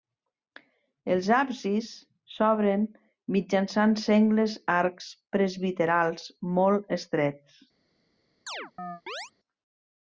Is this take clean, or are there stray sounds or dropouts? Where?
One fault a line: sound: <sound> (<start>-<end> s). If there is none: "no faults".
sound: chirp (8.5-9.3 s)